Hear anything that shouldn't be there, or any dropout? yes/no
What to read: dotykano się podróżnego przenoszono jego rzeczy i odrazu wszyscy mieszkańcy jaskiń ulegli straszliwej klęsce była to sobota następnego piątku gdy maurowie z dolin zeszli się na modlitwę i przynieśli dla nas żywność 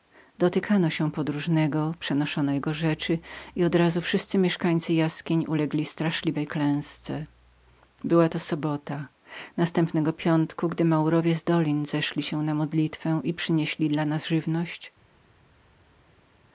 no